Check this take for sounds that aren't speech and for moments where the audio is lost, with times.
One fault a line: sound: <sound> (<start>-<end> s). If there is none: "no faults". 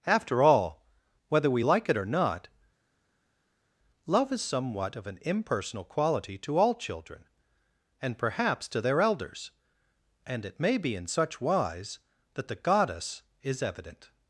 no faults